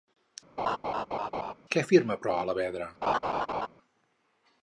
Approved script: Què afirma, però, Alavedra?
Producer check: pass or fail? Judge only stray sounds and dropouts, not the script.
fail